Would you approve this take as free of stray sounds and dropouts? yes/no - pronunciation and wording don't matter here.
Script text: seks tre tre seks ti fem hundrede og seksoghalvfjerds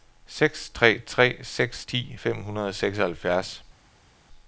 yes